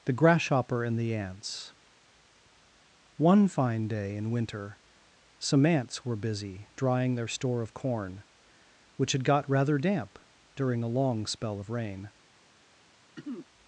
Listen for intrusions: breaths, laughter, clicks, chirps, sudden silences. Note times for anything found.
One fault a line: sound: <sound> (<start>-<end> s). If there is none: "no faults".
sound: throat clearing (13.2-13.5 s)